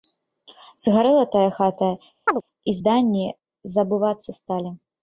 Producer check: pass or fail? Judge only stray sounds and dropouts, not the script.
fail